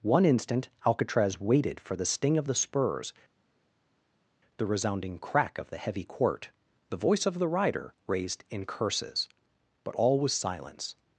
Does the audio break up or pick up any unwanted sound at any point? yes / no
no